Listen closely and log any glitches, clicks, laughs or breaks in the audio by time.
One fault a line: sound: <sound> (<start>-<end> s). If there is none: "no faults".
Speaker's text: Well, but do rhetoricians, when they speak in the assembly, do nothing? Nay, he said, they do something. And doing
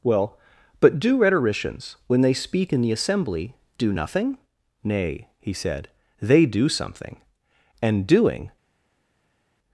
no faults